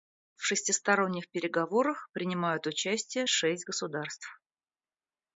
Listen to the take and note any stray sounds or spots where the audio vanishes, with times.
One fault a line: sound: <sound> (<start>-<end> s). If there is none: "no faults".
no faults